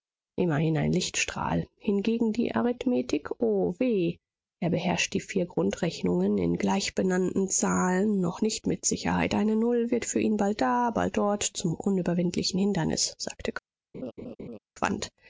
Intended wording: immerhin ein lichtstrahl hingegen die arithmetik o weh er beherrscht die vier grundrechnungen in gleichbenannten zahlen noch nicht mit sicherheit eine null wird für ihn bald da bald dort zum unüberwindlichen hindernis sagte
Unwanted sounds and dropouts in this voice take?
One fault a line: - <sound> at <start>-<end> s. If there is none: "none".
- laugh at 13.9-14.6 s